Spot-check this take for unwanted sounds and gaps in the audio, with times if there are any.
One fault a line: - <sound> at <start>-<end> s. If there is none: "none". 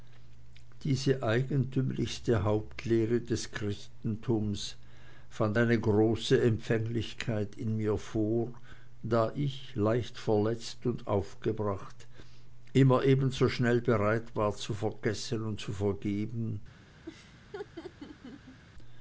- laugh at 17.1-18.6 s